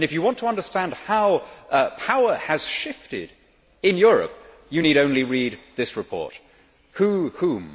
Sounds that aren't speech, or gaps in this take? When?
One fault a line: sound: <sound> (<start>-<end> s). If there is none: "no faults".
no faults